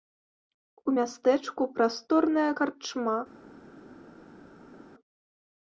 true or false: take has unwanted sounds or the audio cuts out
false